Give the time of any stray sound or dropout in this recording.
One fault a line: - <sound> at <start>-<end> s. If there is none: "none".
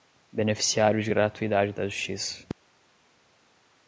none